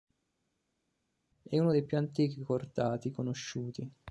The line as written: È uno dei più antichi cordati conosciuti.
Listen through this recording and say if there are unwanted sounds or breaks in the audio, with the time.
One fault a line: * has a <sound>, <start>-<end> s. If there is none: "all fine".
all fine